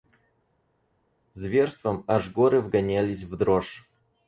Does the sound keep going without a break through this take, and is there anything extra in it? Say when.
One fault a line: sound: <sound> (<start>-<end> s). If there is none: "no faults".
no faults